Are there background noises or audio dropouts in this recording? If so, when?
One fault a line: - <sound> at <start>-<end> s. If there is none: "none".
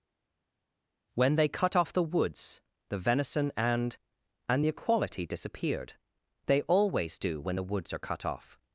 none